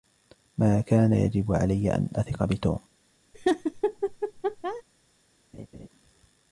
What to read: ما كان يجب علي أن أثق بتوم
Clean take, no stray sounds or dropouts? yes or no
no